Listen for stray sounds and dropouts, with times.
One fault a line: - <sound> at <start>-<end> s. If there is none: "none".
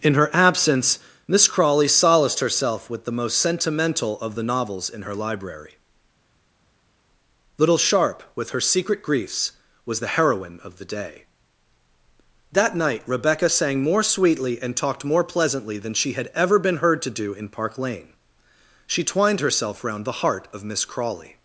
none